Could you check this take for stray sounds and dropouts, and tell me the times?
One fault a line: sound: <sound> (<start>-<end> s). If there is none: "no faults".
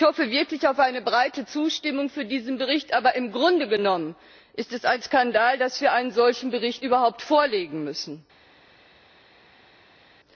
no faults